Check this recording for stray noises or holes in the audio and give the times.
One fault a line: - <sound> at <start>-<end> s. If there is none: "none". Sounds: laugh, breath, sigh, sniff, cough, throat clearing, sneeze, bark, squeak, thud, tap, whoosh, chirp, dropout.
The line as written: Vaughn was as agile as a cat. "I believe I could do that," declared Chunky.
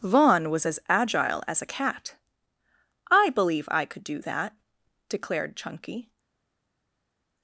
none